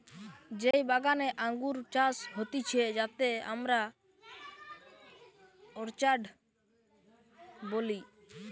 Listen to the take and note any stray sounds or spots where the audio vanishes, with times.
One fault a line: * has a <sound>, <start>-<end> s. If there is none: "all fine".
* has a dropout, 0.7-0.7 s